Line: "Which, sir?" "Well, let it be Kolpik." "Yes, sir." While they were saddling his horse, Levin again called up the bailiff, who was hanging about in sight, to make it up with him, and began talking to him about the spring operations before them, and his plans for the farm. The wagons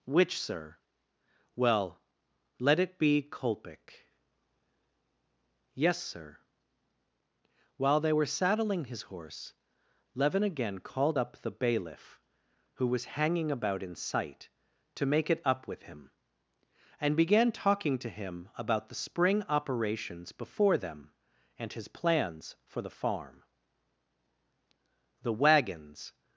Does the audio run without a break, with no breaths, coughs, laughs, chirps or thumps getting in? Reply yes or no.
yes